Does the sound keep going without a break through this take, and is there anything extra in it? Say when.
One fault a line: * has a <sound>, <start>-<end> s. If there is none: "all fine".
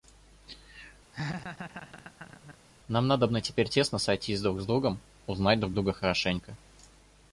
* has a laugh, 1.1-2.6 s